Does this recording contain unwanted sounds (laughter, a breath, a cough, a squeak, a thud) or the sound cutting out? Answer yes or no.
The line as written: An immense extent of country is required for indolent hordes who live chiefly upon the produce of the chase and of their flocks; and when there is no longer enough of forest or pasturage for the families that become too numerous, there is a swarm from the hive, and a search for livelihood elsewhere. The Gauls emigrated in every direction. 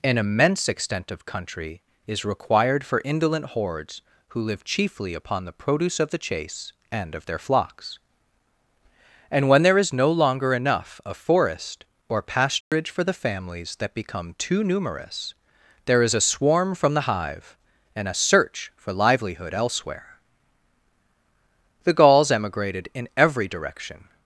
yes